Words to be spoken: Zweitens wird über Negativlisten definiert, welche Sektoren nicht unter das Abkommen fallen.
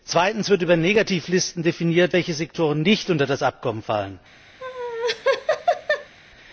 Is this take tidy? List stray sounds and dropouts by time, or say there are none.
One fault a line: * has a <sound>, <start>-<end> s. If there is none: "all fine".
* has a laugh, 4.6-6.1 s